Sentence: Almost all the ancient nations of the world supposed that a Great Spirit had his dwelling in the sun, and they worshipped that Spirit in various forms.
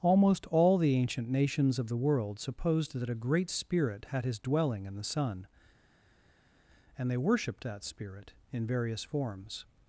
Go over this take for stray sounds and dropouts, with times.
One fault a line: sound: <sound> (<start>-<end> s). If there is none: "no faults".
no faults